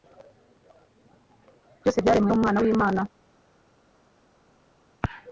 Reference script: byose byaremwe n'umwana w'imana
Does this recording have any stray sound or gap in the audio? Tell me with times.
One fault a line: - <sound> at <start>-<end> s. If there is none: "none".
none